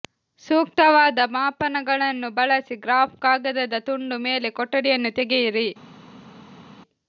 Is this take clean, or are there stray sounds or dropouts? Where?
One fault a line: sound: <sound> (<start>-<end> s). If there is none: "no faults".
no faults